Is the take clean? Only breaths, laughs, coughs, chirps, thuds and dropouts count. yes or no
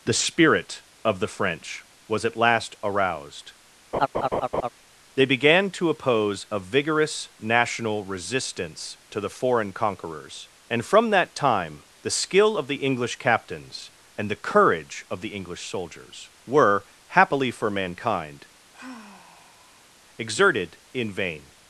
no